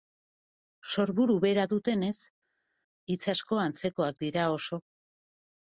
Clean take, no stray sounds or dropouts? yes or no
yes